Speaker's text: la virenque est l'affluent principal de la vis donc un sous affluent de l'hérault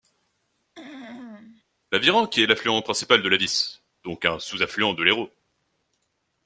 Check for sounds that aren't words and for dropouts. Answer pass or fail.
fail